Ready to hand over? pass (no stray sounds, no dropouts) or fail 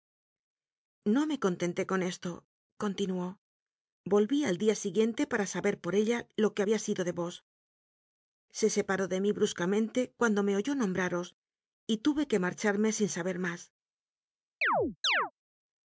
fail